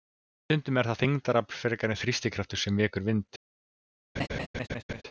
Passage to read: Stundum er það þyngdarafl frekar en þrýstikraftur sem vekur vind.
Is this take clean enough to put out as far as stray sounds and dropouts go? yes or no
no